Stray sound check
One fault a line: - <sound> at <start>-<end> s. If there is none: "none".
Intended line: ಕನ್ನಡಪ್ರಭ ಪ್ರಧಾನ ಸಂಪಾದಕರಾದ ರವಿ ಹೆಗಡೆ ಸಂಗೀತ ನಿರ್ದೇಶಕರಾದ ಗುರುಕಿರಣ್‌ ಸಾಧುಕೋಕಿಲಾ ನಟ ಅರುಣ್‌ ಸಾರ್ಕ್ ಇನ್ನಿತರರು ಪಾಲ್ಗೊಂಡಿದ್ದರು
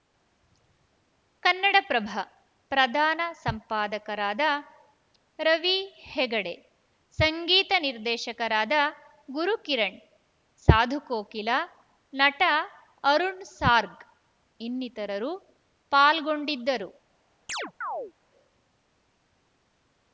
- chirp at 17.5-18.1 s